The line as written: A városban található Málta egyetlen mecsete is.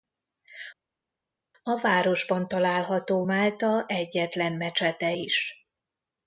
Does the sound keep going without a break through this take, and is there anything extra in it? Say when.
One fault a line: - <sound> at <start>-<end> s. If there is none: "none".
none